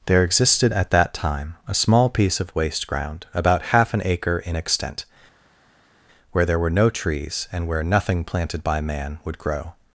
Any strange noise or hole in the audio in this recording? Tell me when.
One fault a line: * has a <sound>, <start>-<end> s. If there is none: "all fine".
all fine